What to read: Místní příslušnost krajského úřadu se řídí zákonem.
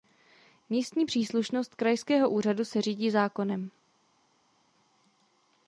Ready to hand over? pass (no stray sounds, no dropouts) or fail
pass